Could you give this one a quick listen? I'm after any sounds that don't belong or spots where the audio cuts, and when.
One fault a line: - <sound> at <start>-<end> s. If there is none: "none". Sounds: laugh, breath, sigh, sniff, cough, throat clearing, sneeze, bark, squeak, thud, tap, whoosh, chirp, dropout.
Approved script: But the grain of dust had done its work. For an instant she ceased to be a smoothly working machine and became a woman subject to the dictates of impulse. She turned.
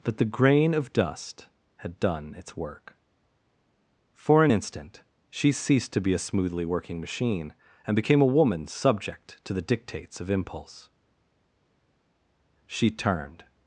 none